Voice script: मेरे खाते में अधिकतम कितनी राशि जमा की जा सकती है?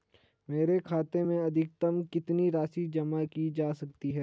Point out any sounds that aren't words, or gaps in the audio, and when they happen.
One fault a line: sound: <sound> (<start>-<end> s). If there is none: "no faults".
no faults